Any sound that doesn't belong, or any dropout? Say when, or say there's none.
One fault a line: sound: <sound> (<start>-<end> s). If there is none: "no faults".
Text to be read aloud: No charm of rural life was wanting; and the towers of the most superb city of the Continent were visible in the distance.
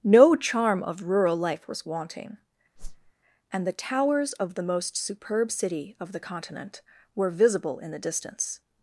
sound: whoosh (2.8-3.1 s)